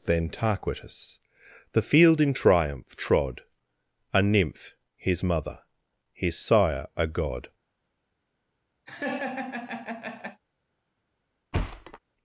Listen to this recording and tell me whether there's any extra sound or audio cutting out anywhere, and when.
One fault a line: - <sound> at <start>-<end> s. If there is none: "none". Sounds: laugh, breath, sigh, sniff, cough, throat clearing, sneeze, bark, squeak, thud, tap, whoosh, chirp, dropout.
- laugh at 8.9-10.4 s
- thud at 11.5-12.0 s